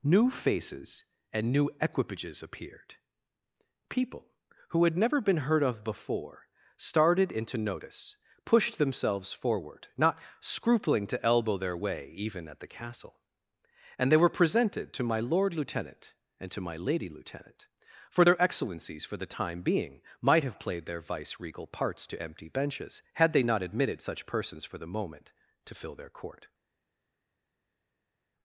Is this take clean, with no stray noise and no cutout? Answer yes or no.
yes